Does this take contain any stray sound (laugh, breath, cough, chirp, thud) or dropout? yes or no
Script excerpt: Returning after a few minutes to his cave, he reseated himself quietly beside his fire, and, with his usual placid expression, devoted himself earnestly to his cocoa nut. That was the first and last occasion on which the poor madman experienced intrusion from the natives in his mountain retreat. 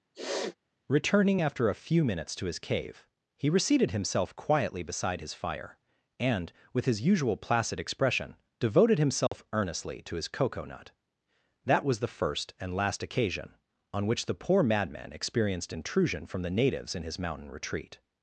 yes